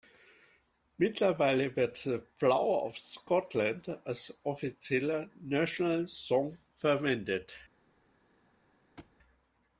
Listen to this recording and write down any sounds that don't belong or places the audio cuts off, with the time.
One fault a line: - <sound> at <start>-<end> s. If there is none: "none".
- thud at 9.0-9.2 s